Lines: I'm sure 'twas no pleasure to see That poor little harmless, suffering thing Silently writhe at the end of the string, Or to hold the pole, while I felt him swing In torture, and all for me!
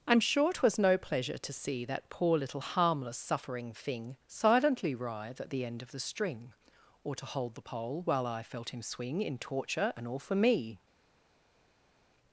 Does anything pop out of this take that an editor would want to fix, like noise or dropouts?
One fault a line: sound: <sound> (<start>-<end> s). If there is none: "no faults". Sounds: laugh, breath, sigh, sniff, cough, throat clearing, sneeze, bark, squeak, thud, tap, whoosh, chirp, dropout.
no faults